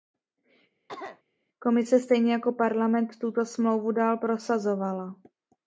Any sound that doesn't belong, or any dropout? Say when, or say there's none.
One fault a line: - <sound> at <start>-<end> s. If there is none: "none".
- cough at 0.9-1.2 s